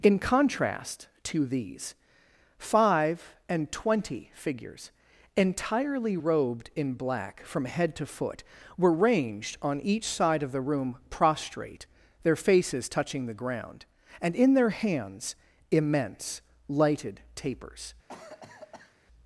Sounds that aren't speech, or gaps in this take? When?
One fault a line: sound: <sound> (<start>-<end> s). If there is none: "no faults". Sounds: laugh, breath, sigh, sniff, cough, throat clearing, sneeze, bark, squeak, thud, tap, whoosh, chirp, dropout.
sound: cough (18.1-19.0 s)